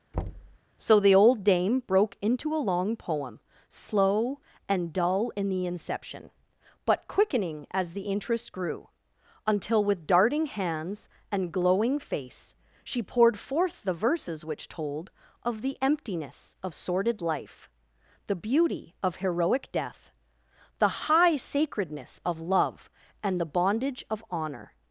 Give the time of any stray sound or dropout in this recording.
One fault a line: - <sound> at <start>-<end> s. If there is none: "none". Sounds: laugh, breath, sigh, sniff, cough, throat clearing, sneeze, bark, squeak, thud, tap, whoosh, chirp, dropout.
- thud at 0.1-0.6 s